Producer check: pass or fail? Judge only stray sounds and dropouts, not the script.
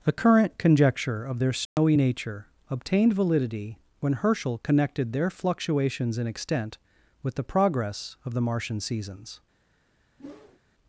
fail